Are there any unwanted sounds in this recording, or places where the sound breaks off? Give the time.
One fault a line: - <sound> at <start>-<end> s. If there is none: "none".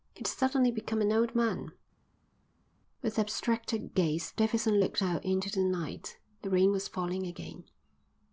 none